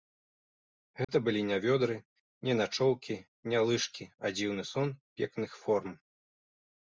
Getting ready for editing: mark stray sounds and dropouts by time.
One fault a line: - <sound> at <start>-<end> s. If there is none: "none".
- dropout at 1.0-1.1 s